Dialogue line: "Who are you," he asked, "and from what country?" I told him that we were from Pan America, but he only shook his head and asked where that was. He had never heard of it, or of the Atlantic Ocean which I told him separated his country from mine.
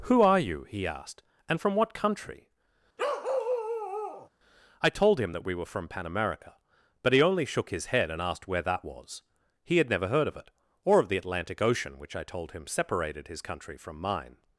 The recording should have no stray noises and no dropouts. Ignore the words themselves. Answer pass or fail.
fail